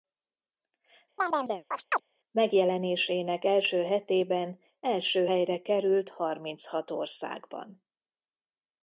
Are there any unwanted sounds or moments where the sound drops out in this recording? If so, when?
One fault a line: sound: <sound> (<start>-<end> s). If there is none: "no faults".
sound: chirp (1.2-2.0 s)